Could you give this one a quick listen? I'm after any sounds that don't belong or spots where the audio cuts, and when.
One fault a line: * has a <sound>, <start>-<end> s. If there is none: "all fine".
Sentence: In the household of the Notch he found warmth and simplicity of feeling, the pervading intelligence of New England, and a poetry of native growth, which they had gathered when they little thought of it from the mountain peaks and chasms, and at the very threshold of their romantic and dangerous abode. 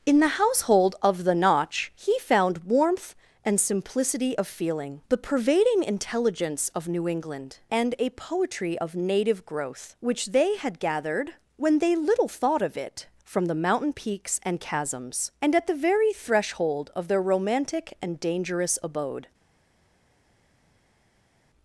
all fine